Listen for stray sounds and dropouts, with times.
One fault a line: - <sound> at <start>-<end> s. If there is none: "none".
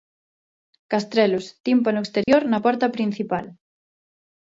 - dropout at 2.2-2.3 s